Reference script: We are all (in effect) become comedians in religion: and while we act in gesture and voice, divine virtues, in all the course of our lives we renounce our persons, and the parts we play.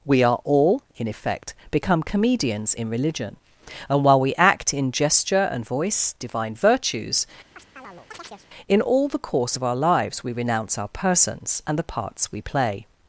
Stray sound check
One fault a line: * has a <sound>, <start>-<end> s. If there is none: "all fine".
* has a chirp, 7.6-8.5 s